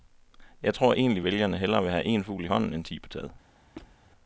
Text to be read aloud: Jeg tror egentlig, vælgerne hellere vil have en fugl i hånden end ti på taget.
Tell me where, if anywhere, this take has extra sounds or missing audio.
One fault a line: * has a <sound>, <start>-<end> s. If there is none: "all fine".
* has a squeak, 3.8-4.0 s